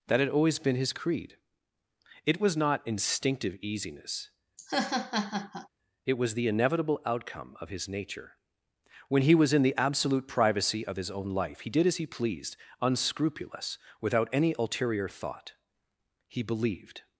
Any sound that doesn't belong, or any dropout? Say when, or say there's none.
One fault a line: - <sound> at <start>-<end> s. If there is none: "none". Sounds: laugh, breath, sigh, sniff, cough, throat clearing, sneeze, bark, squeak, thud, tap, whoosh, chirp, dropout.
- laugh at 4.6-5.7 s